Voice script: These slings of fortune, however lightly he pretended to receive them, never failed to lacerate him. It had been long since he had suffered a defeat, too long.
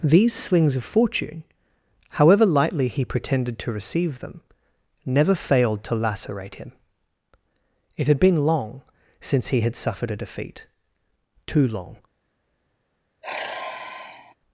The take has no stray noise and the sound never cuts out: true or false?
false